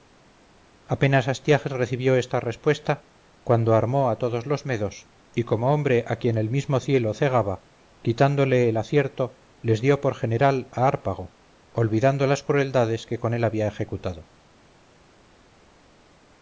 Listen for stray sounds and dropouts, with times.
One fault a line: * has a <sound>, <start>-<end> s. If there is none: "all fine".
all fine